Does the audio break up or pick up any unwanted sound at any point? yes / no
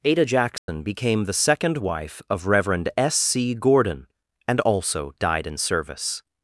yes